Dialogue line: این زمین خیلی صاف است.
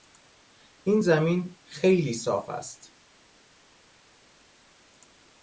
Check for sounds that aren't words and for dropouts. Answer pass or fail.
pass